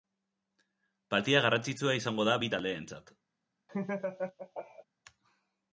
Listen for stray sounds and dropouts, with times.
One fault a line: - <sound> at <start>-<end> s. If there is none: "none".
- laugh at 3.7-4.8 s